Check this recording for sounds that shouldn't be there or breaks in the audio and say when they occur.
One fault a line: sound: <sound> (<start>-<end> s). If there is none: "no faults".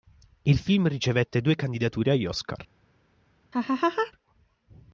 sound: laugh (3.5-4.1 s)